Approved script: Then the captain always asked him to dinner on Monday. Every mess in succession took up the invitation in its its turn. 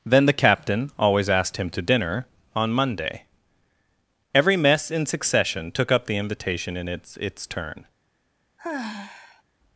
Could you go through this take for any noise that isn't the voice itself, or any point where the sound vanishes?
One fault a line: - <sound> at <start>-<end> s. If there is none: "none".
- sigh at 8.6-9.4 s